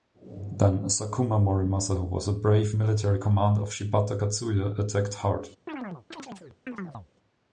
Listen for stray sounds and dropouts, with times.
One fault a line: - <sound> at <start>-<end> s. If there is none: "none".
- chirp at 5.7-7.1 s